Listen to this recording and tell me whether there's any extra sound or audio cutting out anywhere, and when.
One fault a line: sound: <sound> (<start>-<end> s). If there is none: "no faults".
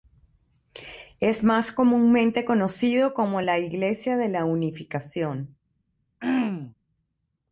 sound: throat clearing (6.2-6.7 s)